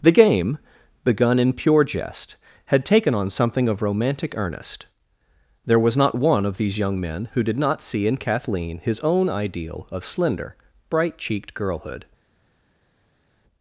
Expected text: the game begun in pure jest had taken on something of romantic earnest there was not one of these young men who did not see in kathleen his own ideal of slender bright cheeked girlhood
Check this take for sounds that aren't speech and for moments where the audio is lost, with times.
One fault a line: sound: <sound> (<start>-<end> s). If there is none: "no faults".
no faults